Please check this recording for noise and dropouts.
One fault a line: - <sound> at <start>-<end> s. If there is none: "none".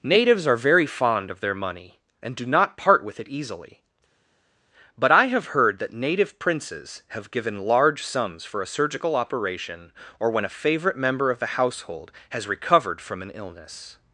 none